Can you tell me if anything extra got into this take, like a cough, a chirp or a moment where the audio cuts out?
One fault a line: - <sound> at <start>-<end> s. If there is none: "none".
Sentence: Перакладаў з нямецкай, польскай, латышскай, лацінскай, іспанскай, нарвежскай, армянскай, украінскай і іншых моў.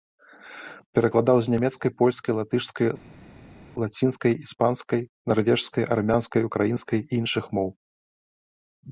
none